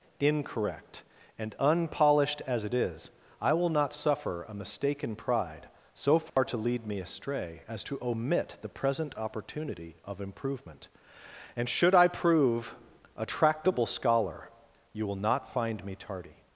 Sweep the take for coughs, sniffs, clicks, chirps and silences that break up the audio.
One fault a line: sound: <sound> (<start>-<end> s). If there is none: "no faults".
sound: dropout (6.3-6.4 s)